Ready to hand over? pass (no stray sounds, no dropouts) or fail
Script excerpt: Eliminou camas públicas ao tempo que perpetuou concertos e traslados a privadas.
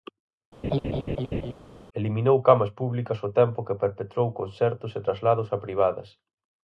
fail